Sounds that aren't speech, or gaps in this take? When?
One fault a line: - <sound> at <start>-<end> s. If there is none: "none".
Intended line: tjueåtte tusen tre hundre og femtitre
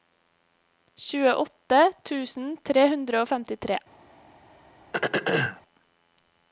- throat clearing at 4.9-5.6 s